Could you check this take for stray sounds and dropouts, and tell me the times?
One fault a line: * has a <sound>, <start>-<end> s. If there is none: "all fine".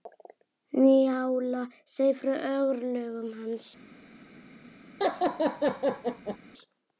* has a laugh, 5.0-6.4 s